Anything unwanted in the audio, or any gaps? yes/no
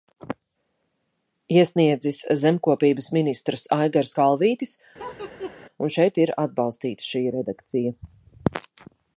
yes